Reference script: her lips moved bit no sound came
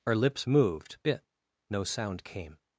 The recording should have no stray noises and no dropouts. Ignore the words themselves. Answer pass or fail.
pass